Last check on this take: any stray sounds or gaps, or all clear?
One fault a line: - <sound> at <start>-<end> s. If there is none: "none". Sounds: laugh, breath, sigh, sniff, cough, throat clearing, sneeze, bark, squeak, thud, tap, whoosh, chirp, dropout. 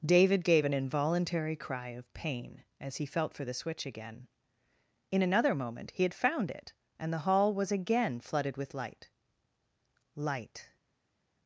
none